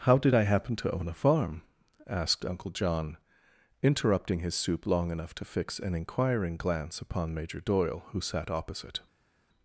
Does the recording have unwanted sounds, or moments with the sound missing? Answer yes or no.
no